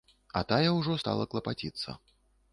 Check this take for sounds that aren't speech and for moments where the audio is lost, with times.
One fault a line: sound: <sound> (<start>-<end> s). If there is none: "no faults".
no faults